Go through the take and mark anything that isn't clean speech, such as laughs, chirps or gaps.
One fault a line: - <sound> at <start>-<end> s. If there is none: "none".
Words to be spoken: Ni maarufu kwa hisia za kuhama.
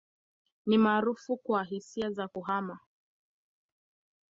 none